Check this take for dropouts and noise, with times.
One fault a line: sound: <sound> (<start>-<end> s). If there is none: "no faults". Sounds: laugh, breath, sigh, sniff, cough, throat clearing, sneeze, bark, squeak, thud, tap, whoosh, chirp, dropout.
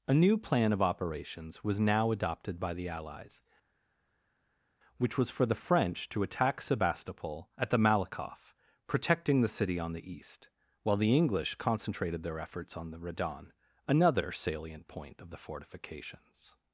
no faults